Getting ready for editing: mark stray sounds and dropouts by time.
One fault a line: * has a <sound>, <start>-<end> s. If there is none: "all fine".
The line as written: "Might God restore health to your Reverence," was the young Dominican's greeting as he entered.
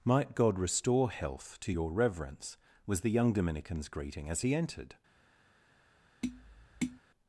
* has a tap, 6.2-7.0 s